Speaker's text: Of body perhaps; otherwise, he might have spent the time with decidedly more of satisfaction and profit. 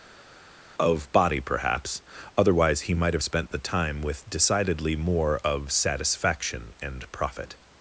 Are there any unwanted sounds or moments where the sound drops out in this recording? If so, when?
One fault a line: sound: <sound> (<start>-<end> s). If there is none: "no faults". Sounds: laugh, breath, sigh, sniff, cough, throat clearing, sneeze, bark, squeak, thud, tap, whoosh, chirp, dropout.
no faults